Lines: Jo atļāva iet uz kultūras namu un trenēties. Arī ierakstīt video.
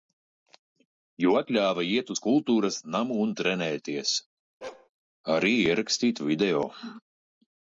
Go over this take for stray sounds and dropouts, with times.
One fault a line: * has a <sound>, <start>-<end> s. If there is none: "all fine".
* has a bark, 4.6-4.9 s